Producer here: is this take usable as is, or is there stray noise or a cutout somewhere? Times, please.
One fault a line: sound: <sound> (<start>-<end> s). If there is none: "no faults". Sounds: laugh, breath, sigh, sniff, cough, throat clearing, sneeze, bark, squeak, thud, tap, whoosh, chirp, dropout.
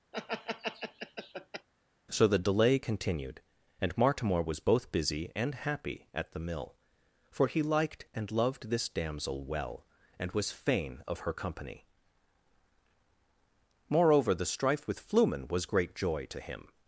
sound: laugh (0.1-1.7 s)